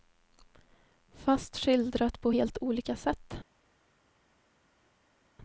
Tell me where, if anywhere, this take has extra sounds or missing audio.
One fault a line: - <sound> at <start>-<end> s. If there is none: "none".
none